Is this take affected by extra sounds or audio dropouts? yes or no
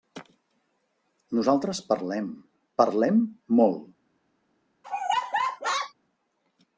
yes